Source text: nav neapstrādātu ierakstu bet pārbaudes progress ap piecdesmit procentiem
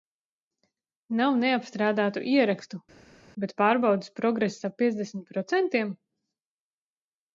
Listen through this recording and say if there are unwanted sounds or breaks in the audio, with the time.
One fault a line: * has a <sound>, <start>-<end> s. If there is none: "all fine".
all fine